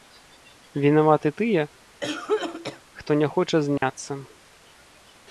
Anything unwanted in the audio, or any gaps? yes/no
yes